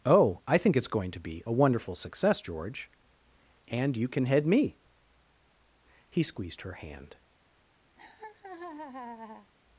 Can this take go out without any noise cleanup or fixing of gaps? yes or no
no